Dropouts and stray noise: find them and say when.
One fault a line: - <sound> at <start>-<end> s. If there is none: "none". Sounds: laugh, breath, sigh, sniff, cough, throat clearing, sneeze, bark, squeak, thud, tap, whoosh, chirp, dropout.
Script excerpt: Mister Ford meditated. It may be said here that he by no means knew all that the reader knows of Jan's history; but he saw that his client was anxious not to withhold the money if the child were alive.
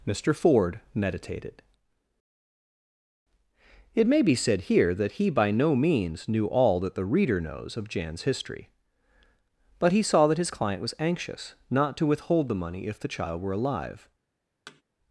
- thud at 14.7-14.8 s